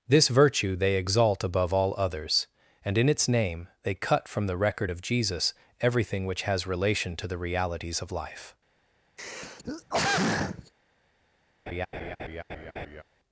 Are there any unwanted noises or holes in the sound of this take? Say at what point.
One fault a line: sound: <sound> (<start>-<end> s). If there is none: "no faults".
sound: throat clearing (9.2-10.7 s)
sound: laugh (11.7-13.0 s)